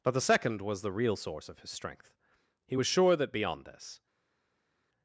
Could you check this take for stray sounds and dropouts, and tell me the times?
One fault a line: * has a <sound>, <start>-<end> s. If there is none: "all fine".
all fine